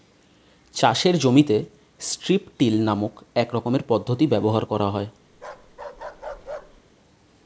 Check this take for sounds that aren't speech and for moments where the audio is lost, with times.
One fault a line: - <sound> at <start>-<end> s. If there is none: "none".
- bark at 5.3-6.8 s